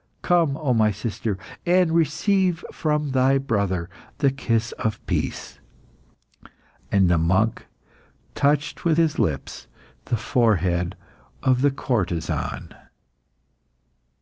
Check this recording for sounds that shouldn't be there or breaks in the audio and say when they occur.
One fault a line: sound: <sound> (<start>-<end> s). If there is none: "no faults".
no faults